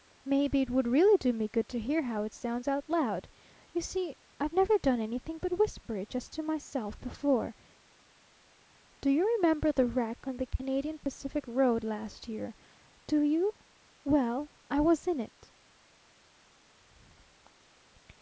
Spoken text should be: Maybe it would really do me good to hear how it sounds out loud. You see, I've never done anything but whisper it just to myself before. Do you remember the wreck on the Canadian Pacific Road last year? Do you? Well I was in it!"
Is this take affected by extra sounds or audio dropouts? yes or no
no